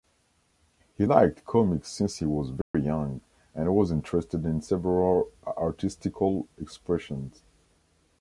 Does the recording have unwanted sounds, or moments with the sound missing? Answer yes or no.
yes